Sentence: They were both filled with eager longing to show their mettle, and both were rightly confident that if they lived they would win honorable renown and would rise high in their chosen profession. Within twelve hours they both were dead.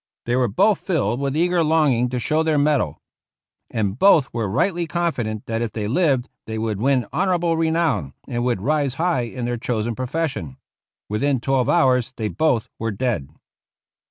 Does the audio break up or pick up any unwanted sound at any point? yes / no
no